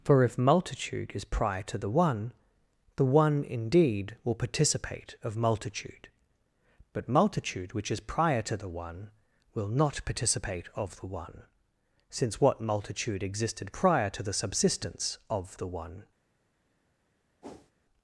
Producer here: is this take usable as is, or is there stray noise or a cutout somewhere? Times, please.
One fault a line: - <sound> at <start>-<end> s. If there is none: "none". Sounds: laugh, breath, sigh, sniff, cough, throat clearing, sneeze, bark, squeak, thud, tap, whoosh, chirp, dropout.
- whoosh at 17.4-17.7 s